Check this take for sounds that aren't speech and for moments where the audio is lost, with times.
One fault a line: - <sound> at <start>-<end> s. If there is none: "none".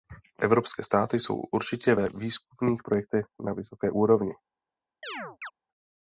- chirp at 5.0-5.5 s